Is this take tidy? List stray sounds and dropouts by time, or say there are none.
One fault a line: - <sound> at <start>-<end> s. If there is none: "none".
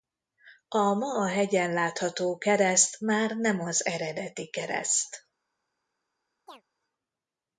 - chirp at 6.5-6.6 s